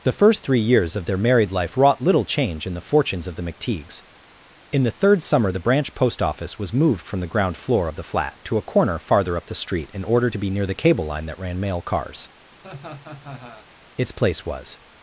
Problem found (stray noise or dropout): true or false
true